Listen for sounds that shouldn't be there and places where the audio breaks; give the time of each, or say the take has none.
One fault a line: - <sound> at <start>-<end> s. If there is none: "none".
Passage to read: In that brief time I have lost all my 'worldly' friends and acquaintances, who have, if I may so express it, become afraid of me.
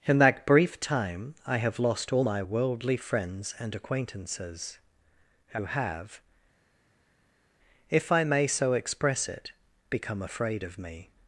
none